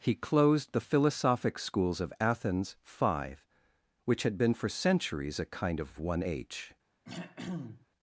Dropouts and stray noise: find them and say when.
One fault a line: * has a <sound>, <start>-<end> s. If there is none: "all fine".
* has a throat clearing, 7.0-7.9 s